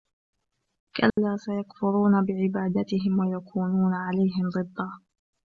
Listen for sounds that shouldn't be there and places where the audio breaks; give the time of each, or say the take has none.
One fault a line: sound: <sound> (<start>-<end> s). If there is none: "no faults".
sound: dropout (1.1-1.2 s)